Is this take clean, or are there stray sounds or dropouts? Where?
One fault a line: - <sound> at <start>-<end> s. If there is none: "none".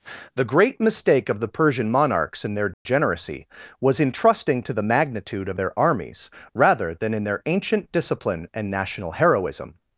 - dropout at 2.7-2.9 s